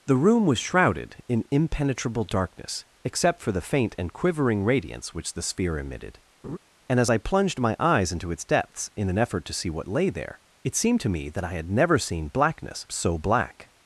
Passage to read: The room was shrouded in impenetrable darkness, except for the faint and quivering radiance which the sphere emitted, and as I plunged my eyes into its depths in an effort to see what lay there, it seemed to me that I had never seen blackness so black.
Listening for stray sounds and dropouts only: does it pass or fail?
fail